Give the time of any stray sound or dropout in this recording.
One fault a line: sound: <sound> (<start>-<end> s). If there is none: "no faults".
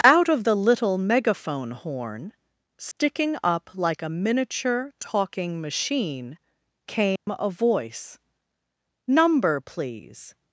sound: dropout (2.9-3.0 s)
sound: dropout (7.2-7.3 s)